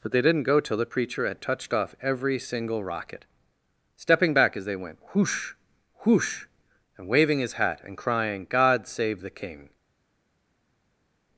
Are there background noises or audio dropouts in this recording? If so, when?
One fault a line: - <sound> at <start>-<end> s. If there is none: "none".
none